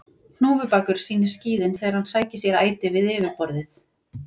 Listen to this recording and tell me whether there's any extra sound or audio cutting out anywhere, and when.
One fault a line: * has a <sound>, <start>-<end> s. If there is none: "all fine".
all fine